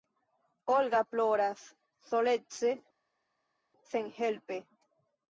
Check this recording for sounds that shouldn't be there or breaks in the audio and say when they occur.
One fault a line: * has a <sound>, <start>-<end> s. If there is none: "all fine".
all fine